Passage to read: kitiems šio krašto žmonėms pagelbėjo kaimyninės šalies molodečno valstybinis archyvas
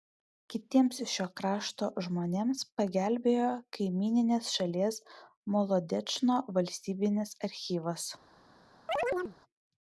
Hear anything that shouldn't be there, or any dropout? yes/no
yes